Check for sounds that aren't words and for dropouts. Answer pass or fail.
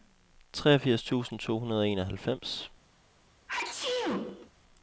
fail